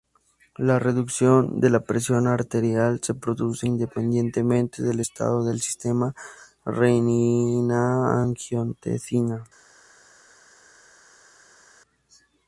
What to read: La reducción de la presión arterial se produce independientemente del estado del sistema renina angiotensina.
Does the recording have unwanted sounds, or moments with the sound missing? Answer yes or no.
no